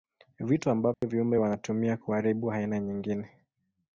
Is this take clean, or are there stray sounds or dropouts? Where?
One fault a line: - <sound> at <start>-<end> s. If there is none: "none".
- dropout at 0.9-1.0 s